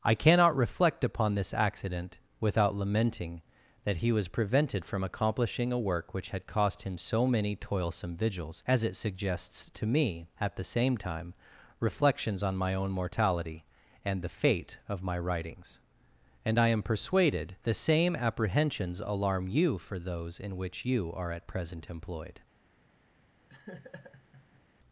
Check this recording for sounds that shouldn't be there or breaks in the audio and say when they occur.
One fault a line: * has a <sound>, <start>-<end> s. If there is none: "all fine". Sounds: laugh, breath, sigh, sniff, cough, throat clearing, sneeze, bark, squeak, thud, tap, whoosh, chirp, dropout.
* has a laugh, 23.5-24.6 s